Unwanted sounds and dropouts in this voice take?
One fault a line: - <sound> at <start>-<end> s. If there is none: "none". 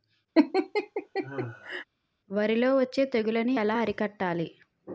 - laugh at 0.3-1.8 s